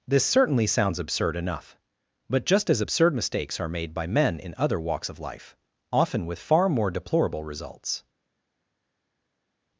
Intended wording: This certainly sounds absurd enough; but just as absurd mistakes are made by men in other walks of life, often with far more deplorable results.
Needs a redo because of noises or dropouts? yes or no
no